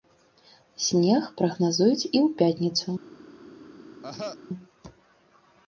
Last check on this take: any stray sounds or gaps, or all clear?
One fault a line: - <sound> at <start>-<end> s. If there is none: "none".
- cough at 4.0-4.4 s